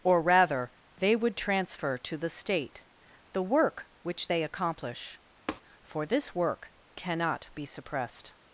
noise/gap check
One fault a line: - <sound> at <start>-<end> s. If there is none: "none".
- tap at 5.5-5.6 s